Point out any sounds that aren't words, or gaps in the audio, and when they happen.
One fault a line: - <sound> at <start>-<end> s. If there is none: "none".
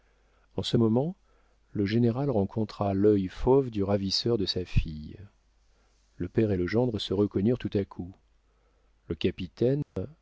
- dropout at 9.8-10.0 s